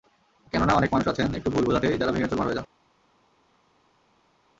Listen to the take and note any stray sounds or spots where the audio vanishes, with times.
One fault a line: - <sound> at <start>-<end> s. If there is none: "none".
none